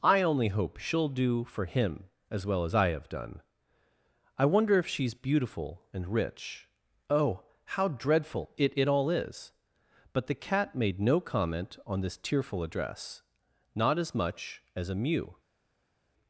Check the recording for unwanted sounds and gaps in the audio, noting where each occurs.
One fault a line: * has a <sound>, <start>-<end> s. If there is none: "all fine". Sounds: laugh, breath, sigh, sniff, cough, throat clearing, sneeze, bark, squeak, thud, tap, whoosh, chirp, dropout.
all fine